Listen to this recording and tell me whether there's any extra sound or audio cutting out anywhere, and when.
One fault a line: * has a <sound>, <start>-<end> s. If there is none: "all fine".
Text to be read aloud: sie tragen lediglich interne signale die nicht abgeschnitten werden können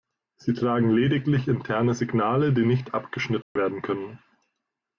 * has a dropout, 3.4-3.6 s